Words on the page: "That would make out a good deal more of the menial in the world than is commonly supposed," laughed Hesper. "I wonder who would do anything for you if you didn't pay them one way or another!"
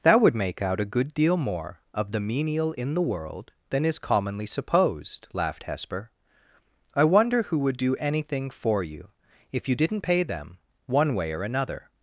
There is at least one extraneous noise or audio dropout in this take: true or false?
false